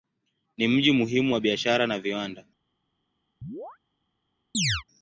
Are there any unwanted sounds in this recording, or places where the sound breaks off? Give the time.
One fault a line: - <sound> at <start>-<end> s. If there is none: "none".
- chirp at 3.4-3.8 s
- chirp at 4.5-4.8 s